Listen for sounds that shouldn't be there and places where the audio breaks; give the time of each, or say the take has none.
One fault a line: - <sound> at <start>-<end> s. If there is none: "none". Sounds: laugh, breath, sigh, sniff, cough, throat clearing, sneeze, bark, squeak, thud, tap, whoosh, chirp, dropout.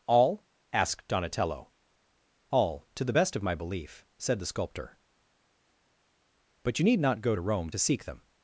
none